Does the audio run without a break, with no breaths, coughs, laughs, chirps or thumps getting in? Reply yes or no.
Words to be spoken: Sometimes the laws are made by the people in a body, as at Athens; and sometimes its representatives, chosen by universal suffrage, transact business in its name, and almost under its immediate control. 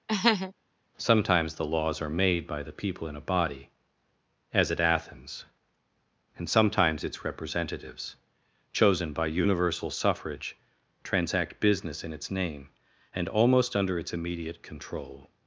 no